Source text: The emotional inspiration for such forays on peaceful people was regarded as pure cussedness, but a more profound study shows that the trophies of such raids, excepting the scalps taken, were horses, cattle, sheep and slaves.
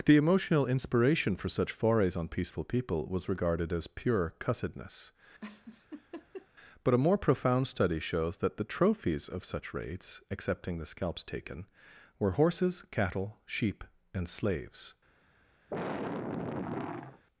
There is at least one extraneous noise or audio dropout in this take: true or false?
true